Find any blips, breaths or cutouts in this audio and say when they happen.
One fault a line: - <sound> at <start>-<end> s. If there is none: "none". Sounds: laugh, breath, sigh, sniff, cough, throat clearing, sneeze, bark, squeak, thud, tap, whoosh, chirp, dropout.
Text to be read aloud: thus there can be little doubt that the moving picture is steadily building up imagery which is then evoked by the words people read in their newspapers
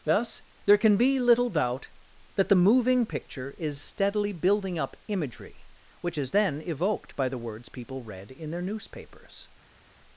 none